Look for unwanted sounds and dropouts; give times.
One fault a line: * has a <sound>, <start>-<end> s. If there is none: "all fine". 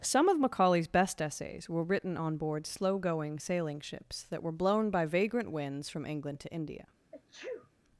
* has a sneeze, 7.1-7.7 s